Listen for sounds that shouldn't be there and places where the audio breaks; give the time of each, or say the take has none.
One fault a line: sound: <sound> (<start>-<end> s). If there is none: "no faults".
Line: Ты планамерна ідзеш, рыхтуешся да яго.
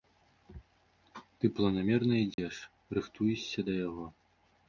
sound: dropout (2.3-2.4 s)